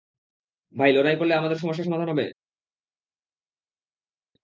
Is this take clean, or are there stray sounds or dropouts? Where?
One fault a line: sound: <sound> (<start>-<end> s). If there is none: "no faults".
no faults